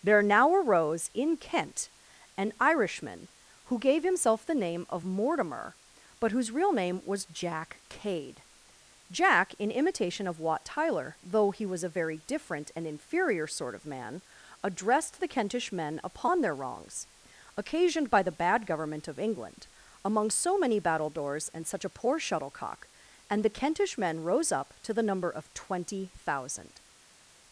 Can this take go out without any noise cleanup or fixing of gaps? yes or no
yes